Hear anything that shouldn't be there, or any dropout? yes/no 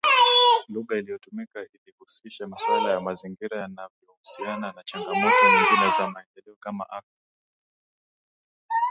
no